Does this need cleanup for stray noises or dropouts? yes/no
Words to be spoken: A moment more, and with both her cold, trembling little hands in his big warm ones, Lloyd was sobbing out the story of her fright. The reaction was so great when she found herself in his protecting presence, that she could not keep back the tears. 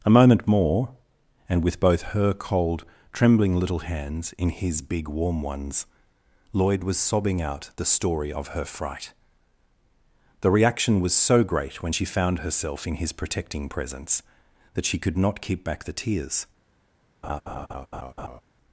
yes